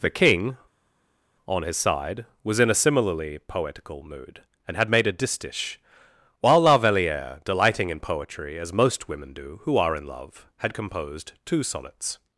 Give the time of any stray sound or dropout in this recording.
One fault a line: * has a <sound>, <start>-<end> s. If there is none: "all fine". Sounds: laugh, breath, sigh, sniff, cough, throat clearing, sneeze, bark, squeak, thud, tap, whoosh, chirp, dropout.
all fine